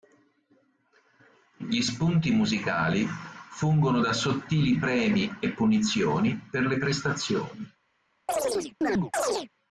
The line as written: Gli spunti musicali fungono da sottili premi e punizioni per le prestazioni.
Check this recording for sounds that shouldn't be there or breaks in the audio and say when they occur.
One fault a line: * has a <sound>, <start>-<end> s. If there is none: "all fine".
* has a chirp, 8.3-9.5 s